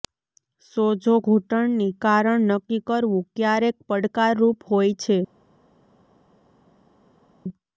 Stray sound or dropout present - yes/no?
no